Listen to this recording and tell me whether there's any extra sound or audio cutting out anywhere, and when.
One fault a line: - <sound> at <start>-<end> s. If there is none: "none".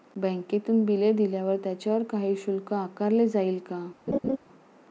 - laugh at 4.1-4.4 s